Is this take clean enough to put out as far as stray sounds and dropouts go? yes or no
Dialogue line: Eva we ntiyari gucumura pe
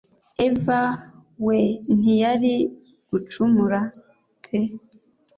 yes